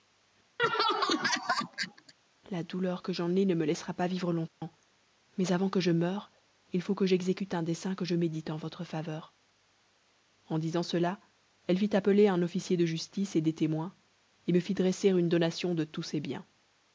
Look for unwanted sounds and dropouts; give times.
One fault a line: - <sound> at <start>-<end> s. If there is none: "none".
- laugh at 0.6-2.1 s
- dropout at 4.5-4.6 s